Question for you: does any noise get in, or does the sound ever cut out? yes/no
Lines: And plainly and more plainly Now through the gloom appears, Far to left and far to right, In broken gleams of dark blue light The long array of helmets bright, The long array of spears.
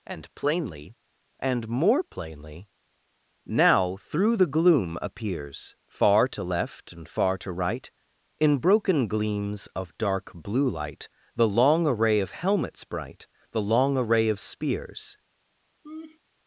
yes